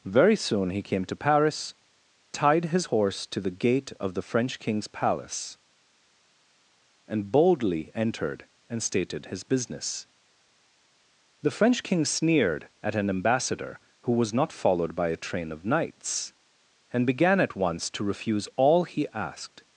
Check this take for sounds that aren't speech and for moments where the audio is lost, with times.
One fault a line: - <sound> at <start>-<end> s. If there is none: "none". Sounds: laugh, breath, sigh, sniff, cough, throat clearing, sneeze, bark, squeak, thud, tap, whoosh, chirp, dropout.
none